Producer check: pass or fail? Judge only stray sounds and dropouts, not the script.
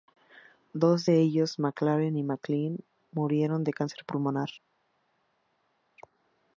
pass